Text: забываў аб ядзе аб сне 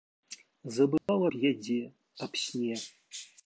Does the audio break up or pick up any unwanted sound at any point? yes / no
yes